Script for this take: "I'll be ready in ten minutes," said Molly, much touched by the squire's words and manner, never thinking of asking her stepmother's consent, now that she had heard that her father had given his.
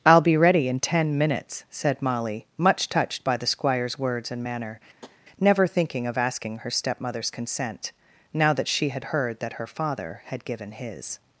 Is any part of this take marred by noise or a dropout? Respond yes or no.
yes